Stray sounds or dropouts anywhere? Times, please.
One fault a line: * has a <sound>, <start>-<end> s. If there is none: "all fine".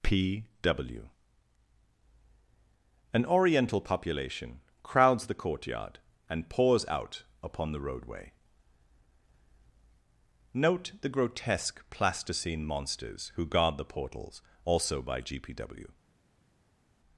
all fine